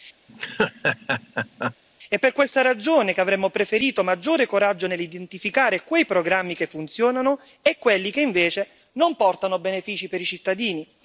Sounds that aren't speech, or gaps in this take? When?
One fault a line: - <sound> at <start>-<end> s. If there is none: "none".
- laugh at 0.3-1.8 s